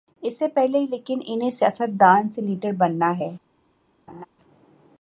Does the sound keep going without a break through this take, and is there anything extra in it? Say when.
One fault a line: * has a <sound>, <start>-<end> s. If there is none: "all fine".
* has a laugh, 4.1-4.3 s